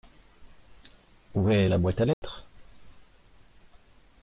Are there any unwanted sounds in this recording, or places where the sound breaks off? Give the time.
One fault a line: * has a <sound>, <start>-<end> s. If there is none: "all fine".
* has a dropout, 2.1-2.2 s